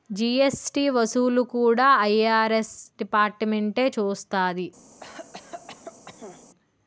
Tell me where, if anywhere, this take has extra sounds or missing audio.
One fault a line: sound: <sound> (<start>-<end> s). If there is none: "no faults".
sound: cough (5.0-6.4 s)